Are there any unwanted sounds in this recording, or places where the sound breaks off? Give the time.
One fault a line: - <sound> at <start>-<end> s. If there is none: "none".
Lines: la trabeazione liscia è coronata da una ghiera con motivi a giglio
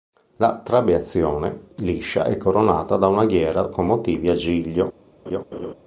- laugh at 5.3-5.7 s